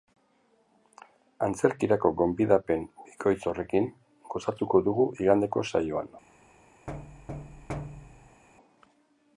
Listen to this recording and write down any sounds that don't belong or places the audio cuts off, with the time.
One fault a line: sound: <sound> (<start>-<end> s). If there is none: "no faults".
sound: thud (6.9-8.4 s)